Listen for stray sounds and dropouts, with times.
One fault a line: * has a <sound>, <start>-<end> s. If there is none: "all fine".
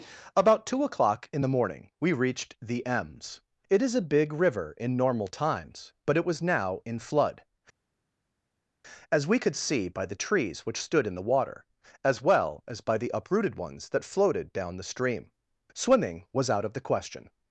all fine